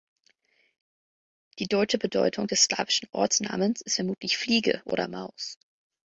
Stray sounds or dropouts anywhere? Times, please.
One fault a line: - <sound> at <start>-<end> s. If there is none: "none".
none